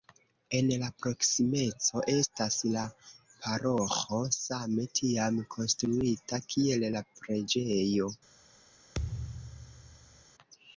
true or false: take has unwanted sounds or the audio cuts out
true